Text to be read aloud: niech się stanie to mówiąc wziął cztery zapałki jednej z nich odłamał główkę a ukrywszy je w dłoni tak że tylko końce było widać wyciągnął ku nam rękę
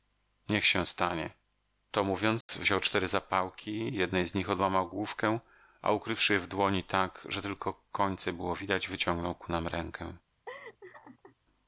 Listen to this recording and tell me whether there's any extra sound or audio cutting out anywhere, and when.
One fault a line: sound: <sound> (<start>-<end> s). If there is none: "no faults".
sound: dropout (2.4-2.5 s)
sound: laugh (10.5-11.4 s)